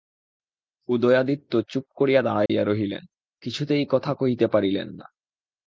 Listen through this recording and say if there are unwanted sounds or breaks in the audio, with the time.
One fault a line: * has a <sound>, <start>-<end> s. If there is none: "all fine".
* has a dropout, 2.5-2.5 s